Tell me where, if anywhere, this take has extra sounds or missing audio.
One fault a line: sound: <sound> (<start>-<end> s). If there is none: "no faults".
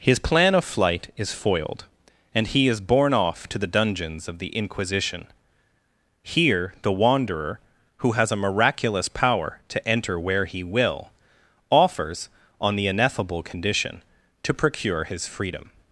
no faults